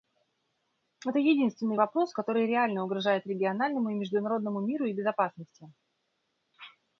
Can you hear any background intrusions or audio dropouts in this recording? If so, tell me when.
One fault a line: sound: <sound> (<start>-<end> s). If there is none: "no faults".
no faults